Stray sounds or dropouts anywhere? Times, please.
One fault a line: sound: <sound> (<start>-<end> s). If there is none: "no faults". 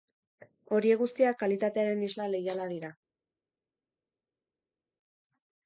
no faults